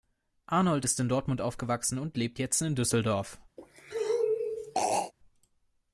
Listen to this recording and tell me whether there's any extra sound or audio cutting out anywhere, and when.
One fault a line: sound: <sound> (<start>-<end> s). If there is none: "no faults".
sound: throat clearing (3.6-5.1 s)